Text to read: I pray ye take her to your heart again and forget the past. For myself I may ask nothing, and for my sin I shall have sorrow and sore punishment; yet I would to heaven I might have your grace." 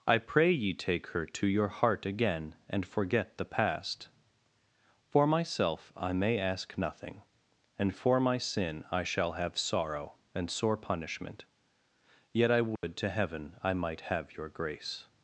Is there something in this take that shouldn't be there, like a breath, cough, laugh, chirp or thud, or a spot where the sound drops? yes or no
yes